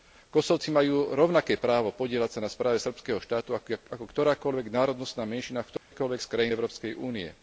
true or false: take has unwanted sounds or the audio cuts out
true